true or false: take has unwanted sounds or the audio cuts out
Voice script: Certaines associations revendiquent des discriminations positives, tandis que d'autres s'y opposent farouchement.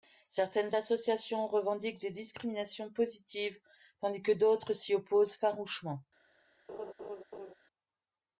true